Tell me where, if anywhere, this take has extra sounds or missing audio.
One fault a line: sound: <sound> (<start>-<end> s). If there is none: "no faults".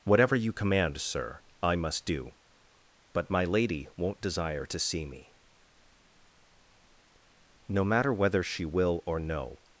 no faults